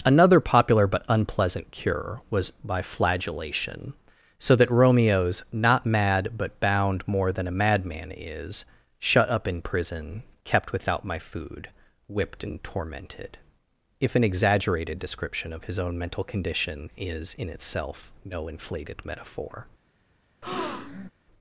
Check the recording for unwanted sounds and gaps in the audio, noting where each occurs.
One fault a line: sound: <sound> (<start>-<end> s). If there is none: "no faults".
sound: breath (20.4-21.1 s)